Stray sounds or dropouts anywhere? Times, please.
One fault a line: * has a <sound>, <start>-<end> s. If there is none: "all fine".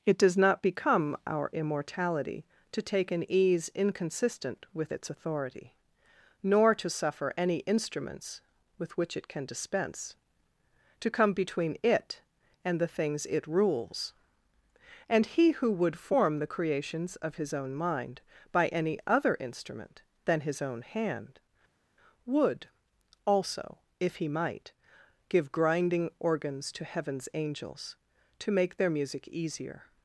all fine